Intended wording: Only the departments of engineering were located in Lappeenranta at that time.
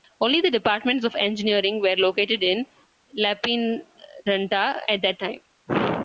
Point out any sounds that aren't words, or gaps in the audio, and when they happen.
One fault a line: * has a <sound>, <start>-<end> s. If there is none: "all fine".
all fine